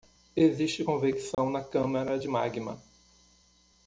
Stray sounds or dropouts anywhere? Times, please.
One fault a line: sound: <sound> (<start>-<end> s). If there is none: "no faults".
sound: dropout (1.3-1.4 s)